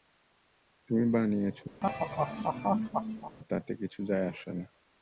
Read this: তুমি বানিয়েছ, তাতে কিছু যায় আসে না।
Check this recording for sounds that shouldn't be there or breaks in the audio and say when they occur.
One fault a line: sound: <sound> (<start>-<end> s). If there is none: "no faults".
sound: laugh (1.8-3.4 s)